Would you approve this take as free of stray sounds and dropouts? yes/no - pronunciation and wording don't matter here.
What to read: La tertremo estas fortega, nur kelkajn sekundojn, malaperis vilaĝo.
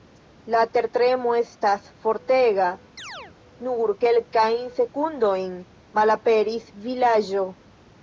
no